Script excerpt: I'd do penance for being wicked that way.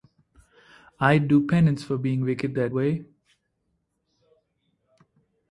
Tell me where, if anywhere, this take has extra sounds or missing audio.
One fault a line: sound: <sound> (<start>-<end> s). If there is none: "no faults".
no faults